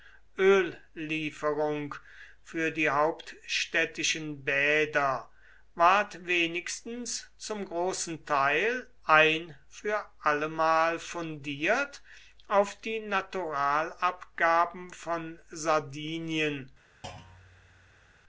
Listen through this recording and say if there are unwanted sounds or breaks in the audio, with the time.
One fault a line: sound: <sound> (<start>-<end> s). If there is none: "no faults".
sound: thud (17.0-18.1 s)